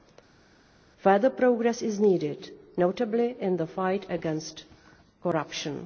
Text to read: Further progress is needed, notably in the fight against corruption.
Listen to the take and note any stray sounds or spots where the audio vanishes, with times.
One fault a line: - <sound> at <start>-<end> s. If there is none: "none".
none